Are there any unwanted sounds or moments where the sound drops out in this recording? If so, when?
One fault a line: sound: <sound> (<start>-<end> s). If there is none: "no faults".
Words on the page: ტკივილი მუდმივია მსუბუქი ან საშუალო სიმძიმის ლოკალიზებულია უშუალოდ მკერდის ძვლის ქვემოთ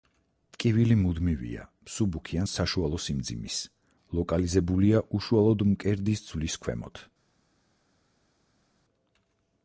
no faults